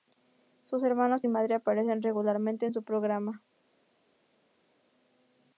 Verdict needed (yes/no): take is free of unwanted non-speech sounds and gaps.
yes